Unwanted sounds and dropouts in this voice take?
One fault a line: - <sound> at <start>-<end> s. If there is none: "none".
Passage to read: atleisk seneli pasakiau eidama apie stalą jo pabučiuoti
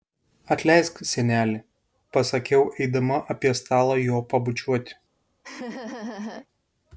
- laugh at 5.4-6.5 s